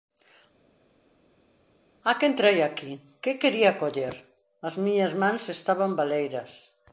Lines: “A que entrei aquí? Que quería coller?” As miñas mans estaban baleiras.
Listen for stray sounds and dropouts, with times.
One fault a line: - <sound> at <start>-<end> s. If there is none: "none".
none